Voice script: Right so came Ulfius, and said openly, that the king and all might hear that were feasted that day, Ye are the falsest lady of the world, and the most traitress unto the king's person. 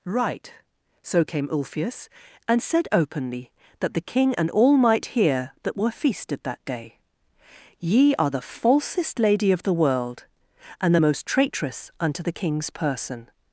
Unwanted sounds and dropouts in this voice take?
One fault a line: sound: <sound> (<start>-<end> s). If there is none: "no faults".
no faults